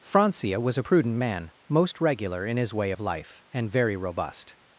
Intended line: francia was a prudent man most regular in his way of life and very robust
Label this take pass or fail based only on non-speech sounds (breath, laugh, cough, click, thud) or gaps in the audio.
pass